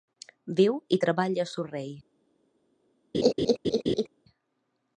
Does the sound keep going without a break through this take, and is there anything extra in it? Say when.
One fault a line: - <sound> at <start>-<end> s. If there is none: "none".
- laugh at 3.1-4.1 s